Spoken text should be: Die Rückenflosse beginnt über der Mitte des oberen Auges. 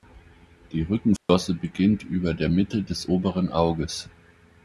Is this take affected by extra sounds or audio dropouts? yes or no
yes